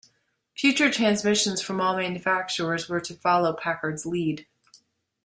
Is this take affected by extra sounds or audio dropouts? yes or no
no